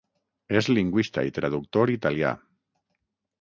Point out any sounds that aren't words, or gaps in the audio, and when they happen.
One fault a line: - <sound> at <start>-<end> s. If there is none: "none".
none